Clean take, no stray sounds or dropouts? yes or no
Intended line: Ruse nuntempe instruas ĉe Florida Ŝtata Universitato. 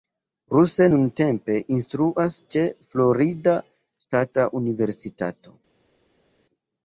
yes